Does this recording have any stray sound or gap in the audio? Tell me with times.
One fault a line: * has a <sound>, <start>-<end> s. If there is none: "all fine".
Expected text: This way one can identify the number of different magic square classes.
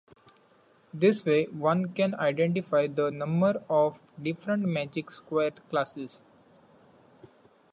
all fine